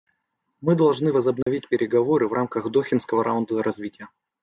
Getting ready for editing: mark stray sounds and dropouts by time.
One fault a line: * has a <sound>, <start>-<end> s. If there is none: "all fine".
* has a dropout, 1.4-1.5 s